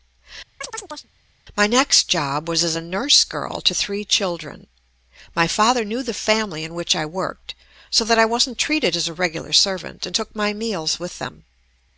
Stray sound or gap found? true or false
true